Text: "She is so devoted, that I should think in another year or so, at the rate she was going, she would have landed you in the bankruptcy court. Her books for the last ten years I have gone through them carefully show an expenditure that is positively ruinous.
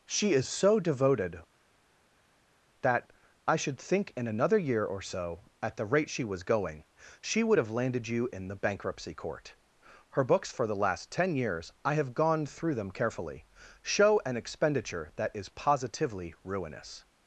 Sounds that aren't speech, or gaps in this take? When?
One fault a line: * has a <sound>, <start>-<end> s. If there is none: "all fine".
all fine